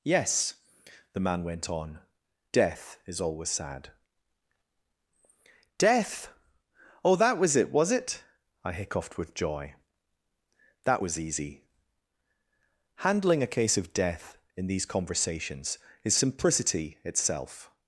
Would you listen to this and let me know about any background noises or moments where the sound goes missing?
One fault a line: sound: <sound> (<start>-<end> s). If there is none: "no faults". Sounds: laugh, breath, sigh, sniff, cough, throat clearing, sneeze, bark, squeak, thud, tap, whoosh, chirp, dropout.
no faults